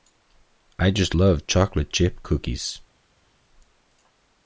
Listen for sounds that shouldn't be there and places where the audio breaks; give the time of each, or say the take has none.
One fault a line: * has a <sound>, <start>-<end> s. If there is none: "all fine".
all fine